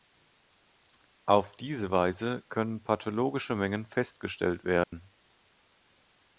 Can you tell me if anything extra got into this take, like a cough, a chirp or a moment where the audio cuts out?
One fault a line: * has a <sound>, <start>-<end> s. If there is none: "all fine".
* has a dropout, 4.8-4.9 s